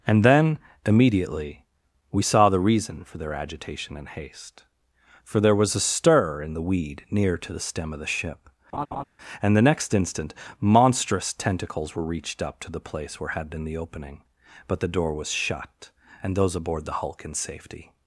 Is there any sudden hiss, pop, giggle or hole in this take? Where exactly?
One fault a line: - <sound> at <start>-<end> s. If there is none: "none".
- laugh at 8.7-9.0 s